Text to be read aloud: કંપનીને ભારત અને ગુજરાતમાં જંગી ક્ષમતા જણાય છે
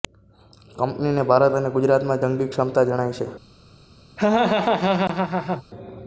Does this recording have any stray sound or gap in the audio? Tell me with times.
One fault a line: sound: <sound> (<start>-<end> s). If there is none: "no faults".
sound: laugh (4.2-5.6 s)